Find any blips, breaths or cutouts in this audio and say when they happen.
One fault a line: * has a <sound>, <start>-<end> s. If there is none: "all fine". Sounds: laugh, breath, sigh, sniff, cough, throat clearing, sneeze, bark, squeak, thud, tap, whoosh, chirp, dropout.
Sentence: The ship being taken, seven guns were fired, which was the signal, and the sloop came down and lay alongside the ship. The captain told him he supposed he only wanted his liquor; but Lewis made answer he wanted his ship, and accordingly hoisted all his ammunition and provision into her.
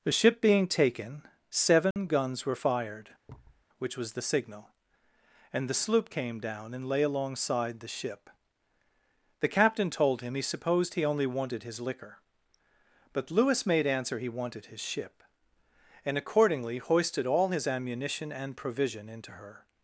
* has a dropout, 1.9-2.0 s
* has a thud, 3.3-3.6 s